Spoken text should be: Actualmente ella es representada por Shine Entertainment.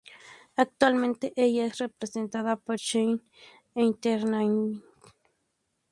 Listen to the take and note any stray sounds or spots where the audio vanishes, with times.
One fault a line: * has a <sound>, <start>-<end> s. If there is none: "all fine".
all fine